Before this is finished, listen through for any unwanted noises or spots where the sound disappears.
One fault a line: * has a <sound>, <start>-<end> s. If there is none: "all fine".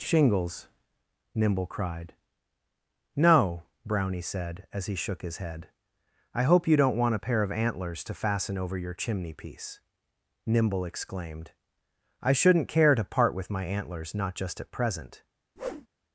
* has a whoosh, 15.6-15.9 s